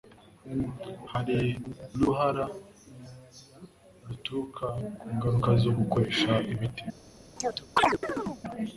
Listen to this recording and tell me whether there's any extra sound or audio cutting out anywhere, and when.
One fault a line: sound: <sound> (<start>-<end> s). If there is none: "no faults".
sound: chirp (7.4-8.4 s)